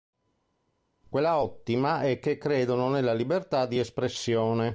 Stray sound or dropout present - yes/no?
no